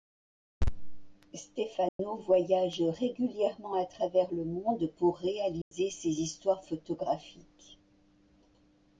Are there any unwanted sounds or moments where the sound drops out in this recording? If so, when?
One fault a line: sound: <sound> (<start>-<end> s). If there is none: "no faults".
sound: dropout (1.9-2.0 s)
sound: dropout (5.6-5.7 s)